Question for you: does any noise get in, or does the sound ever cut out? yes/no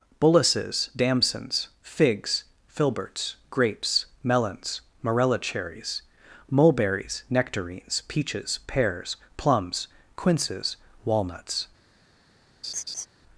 yes